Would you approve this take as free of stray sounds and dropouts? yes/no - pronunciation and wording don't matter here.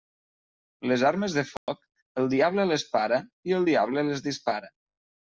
no